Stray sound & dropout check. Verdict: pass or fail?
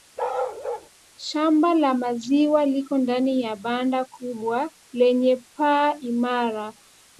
fail